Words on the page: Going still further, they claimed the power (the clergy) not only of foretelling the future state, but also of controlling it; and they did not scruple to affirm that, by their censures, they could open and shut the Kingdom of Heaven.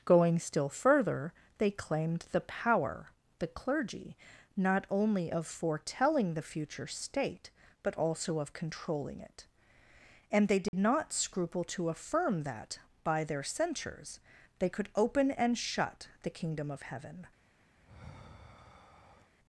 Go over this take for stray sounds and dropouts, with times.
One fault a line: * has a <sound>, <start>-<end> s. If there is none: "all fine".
* has a dropout, 10.7-10.7 s
* has a sigh, 17.8-19.3 s